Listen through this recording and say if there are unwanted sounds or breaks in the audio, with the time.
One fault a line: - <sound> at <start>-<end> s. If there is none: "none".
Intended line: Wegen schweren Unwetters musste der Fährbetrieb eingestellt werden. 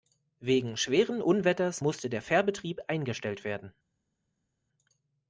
none